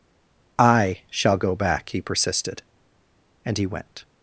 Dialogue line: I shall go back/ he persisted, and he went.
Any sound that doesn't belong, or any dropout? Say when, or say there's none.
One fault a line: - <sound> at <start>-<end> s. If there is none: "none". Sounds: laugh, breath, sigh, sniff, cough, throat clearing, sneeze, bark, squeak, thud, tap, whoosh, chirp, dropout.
none